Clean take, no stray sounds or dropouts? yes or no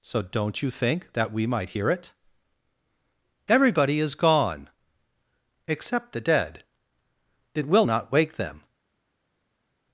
yes